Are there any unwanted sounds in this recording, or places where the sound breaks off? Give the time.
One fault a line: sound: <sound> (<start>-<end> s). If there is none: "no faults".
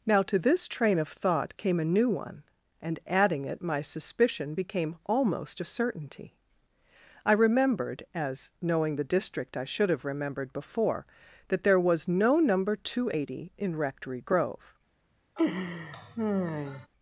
sound: laugh (15.4-16.9 s)